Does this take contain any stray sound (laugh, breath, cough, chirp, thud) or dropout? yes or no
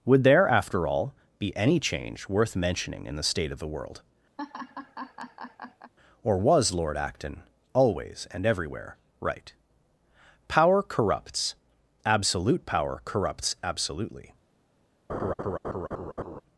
yes